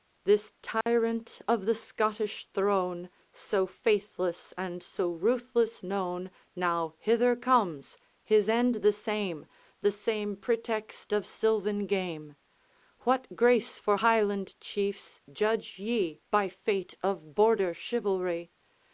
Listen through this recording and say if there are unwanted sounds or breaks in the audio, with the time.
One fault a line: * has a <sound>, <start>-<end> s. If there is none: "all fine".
* has a dropout, 0.8-0.9 s